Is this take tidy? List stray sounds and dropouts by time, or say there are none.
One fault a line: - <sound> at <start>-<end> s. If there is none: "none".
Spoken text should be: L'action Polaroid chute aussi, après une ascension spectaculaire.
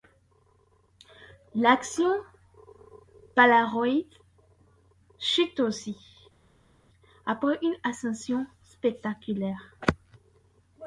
none